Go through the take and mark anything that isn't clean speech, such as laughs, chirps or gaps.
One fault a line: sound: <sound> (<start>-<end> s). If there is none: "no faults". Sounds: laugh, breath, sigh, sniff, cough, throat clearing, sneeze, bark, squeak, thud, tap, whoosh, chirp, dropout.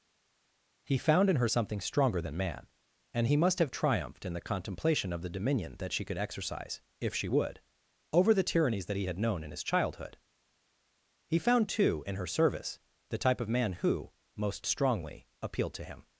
no faults